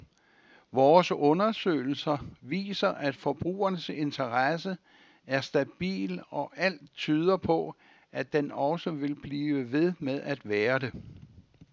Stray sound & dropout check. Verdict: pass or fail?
pass